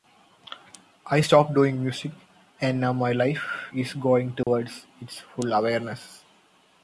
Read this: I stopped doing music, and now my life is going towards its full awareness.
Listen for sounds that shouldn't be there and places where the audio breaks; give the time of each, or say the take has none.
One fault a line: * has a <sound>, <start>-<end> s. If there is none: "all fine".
* has a dropout, 4.4-4.5 s